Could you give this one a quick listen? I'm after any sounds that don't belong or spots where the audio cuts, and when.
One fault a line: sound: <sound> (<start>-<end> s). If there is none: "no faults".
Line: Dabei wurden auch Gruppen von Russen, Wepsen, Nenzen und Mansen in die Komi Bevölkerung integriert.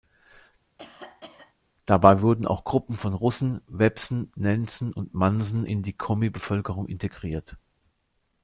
sound: cough (0.8-1.5 s)